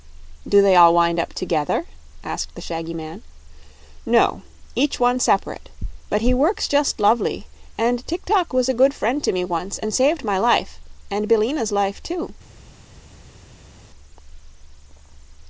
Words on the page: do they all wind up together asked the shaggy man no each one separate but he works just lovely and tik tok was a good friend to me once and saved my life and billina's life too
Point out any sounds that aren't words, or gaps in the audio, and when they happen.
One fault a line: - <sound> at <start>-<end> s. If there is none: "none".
none